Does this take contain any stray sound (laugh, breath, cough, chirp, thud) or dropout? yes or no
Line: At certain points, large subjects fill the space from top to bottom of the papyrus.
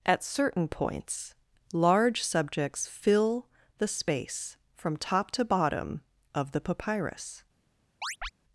yes